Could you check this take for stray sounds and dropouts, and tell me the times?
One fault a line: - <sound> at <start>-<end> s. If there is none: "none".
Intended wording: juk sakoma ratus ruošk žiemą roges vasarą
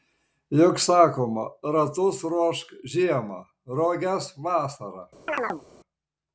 - chirp at 5.3-5.6 s